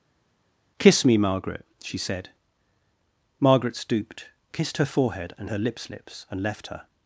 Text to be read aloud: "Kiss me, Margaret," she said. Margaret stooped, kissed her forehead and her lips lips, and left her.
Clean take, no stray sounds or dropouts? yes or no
yes